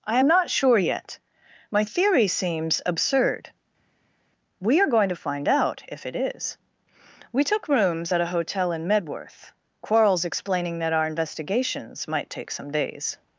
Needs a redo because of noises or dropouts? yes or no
no